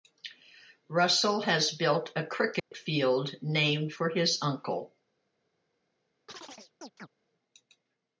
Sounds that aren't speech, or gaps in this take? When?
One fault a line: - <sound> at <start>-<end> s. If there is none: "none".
- dropout at 2.6-2.7 s
- chirp at 6.3-7.1 s